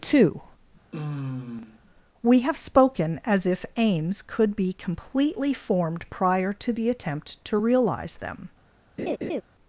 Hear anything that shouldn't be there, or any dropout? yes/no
yes